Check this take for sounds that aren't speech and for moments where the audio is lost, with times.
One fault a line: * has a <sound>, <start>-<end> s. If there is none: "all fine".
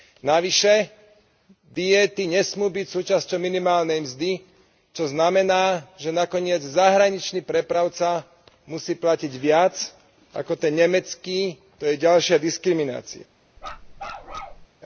* has a bark, 13.6-14.7 s